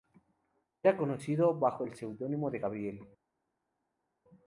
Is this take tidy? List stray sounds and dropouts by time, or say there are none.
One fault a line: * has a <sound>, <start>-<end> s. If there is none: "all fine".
all fine